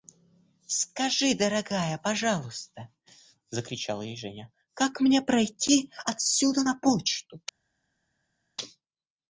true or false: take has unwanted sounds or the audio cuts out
false